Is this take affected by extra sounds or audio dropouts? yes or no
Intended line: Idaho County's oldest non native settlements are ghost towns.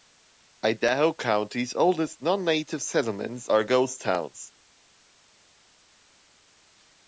no